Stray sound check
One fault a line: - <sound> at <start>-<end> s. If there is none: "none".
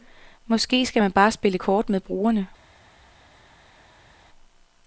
none